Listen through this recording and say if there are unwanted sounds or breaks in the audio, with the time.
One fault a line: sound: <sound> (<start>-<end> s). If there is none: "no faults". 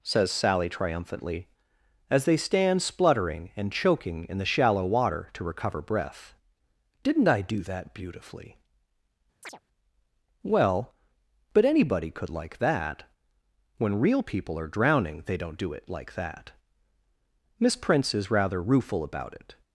sound: chirp (9.4-9.6 s)